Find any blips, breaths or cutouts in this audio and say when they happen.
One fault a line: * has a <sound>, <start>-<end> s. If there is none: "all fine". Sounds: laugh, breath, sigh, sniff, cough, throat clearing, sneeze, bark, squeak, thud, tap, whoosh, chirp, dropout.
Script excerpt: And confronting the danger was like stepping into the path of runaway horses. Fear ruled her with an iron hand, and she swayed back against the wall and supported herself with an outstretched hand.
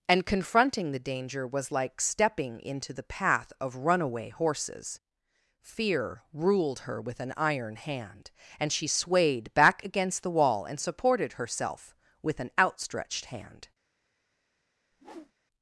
* has a whoosh, 14.9-15.3 s